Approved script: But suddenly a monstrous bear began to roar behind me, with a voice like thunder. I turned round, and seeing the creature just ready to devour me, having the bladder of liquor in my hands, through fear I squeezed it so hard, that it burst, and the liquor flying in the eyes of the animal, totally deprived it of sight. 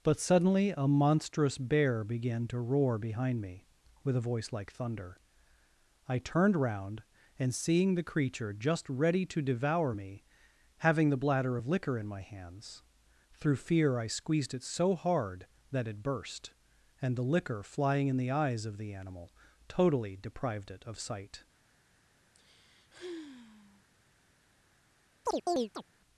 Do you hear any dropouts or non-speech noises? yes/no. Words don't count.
yes